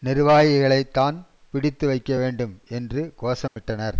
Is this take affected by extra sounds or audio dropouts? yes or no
yes